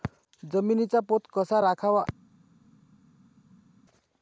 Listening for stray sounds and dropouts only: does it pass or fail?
pass